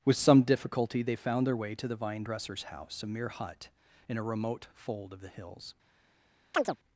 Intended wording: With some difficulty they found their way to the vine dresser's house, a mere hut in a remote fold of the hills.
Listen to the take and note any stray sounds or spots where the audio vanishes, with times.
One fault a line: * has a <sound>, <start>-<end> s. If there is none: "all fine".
* has a chirp, 6.5-6.8 s